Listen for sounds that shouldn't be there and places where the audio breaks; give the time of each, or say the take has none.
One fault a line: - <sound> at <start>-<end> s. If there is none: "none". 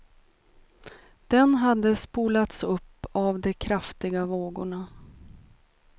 none